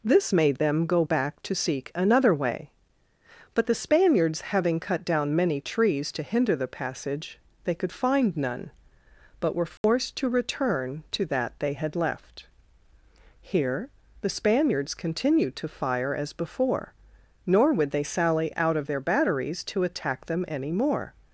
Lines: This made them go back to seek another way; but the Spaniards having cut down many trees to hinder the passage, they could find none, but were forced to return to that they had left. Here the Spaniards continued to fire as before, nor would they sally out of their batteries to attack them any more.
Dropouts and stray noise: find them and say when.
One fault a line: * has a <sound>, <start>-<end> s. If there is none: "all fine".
* has a dropout, 9.8-9.8 s